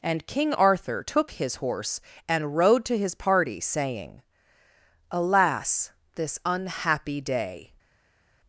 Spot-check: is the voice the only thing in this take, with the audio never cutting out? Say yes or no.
yes